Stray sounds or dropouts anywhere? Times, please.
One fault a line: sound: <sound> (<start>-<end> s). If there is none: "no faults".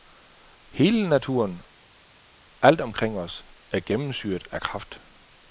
no faults